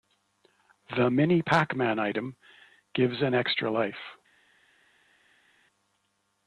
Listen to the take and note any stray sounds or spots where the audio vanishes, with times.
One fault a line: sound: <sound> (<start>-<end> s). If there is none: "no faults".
no faults